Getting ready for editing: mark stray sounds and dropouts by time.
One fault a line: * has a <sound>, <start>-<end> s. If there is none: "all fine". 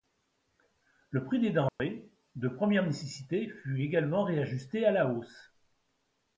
* has a dropout, 1.7-1.8 s